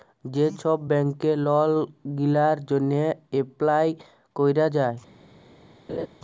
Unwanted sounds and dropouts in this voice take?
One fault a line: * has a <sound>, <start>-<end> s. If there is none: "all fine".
* has a laugh, 5.9-6.1 s